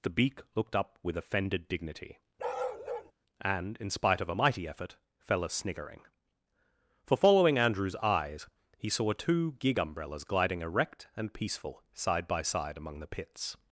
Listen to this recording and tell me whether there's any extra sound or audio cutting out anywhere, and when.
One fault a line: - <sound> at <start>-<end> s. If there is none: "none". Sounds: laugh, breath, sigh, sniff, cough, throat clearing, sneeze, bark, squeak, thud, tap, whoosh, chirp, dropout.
- bark at 2.4-3.1 s